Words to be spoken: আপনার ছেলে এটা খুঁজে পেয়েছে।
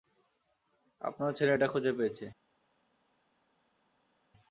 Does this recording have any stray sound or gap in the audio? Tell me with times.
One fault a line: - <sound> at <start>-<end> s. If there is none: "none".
none